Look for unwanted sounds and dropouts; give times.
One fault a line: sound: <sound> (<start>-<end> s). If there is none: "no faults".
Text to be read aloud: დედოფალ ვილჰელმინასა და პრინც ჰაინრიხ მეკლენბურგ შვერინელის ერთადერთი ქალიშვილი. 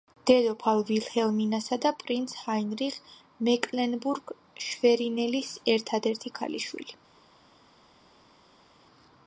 no faults